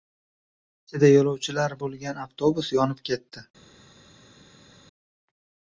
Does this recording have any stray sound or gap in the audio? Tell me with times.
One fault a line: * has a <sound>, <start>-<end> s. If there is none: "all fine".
all fine